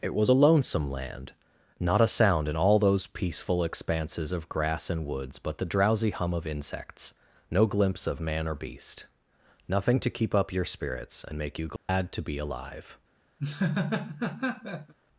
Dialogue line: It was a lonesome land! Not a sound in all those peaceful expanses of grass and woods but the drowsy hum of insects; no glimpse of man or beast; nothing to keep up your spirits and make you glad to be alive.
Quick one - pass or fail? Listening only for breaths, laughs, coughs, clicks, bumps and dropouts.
fail